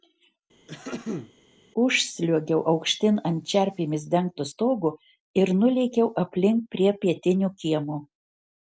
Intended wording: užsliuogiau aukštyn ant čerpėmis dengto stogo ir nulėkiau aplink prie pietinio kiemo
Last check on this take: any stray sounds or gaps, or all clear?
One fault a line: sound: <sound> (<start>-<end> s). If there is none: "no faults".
sound: throat clearing (0.7-1.3 s)